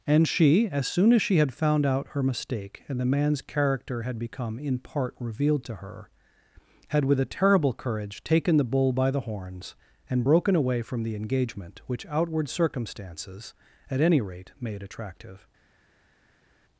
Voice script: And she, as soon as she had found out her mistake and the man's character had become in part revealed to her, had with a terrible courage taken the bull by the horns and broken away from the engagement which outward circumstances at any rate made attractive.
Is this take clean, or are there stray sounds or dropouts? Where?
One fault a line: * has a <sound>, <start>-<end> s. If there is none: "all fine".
all fine